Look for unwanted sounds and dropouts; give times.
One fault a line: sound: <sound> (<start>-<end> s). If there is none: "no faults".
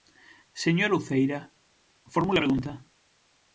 no faults